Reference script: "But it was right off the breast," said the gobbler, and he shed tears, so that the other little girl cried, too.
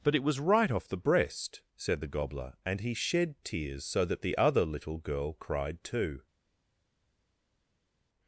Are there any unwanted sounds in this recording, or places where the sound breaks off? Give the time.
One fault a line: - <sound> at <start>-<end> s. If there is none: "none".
none